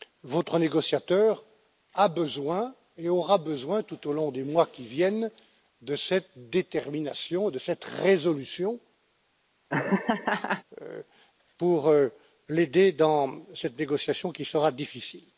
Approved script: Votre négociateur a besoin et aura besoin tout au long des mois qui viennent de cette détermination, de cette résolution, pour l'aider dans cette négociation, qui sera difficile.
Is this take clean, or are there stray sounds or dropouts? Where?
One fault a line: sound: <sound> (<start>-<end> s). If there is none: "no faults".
sound: laugh (9.7-10.6 s)